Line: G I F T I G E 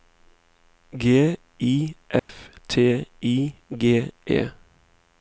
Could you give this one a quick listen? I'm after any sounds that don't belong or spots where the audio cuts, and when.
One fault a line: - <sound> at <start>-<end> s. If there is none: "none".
- dropout at 2.2-2.3 s